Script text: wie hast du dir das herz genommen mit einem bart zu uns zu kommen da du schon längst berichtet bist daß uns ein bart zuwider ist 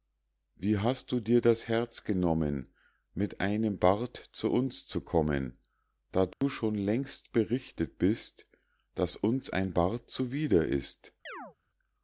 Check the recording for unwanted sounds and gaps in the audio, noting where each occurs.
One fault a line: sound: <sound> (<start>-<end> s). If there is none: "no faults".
sound: dropout (6.3-6.4 s)
sound: chirp (11.3-11.6 s)